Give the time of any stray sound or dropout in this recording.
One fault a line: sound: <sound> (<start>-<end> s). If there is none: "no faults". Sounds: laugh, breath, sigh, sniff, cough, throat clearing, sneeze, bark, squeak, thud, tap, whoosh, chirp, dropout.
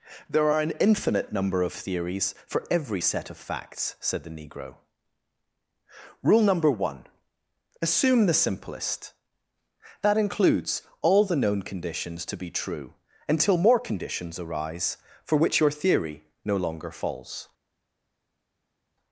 no faults